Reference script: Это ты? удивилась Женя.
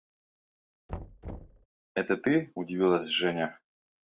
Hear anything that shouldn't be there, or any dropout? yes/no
yes